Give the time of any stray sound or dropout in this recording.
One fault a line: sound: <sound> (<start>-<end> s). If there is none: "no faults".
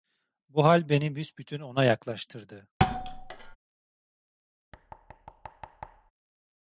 sound: thud (2.8-3.6 s)
sound: thud (4.7-6.1 s)